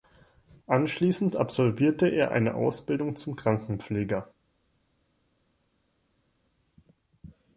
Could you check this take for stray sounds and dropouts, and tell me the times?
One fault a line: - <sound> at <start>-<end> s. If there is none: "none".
none